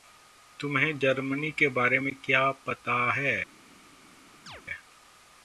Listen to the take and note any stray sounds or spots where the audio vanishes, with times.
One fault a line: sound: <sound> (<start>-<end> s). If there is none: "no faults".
sound: chirp (4.5-4.6 s)